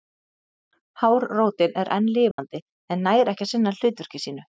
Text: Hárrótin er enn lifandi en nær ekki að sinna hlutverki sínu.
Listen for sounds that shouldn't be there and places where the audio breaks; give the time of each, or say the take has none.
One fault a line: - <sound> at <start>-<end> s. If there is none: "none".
- dropout at 2.3-2.4 s